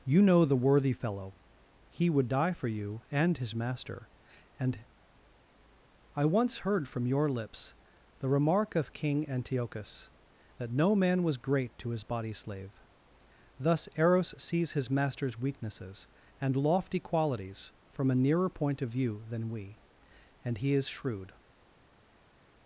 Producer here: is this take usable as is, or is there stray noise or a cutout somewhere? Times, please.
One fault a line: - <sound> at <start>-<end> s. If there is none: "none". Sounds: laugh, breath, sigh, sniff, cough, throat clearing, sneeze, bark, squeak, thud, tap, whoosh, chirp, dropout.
none